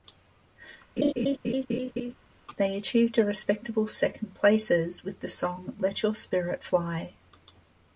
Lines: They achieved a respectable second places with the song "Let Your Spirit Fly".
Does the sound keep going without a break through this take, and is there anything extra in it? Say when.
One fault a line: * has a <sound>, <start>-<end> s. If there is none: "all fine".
* has a laugh, 1.0-2.1 s